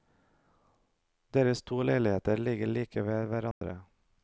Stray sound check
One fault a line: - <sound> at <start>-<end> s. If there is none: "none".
- dropout at 3.5-3.6 s